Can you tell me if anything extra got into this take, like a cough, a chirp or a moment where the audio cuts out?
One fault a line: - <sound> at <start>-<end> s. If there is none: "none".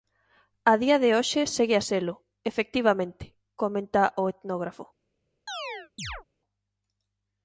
- chirp at 5.5-6.2 s